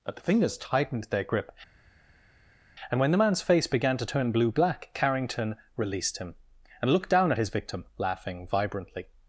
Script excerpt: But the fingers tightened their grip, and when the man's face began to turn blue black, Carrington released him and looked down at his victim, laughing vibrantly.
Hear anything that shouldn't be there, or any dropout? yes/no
no